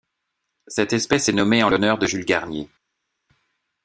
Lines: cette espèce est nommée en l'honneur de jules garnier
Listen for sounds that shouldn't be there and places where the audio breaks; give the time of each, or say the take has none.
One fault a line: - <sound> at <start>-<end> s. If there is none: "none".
none